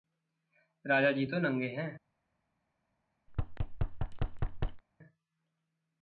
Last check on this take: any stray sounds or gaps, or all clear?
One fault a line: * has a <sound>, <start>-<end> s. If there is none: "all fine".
* has a thud, 3.3-4.8 s